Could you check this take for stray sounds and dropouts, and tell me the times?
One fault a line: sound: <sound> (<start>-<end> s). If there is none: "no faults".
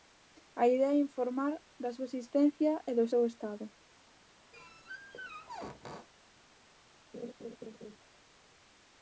sound: squeak (4.5-6.1 s)
sound: laugh (7.1-8.0 s)